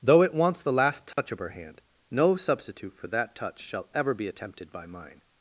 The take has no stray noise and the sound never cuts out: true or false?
false